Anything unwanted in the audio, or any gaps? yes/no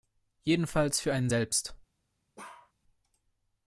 yes